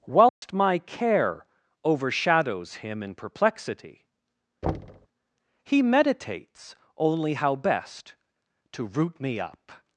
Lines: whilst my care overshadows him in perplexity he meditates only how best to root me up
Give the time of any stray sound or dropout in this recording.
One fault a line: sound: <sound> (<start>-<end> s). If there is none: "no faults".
sound: dropout (0.3-0.4 s)
sound: thud (4.6-5.1 s)